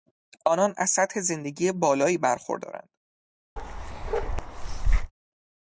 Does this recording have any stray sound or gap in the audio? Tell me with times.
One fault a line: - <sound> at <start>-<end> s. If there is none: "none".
- bark at 3.6-5.1 s